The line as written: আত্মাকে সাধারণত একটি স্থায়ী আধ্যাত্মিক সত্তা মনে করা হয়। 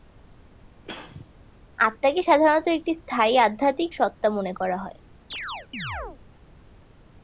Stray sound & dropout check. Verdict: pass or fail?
fail